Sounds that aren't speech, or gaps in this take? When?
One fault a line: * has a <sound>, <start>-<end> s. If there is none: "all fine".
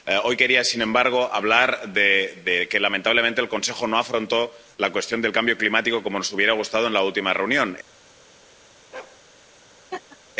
* has a bark, 8.9-9.2 s
* has a laugh, 9.9-10.2 s